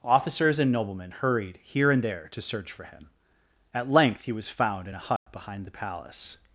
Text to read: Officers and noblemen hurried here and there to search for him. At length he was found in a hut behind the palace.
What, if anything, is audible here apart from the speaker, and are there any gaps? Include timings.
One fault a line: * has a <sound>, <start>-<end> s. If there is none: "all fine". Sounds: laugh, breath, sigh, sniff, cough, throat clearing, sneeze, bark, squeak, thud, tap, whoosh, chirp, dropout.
* has a dropout, 5.2-5.3 s